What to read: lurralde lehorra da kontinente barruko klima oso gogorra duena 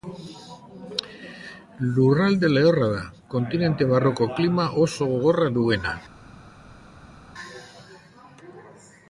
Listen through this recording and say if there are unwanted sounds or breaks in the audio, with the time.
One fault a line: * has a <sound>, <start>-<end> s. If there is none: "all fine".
all fine